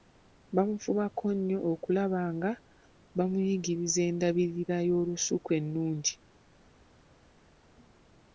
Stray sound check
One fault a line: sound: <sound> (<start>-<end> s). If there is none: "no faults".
no faults